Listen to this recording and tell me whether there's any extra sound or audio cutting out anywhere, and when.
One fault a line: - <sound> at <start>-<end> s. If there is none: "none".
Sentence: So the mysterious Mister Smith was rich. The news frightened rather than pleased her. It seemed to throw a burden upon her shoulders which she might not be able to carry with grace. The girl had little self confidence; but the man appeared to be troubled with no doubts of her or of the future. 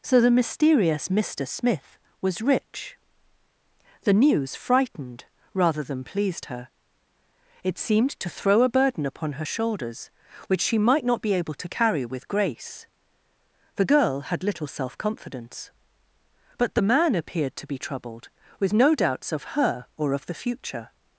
none